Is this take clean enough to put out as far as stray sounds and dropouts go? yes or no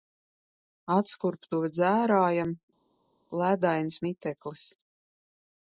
yes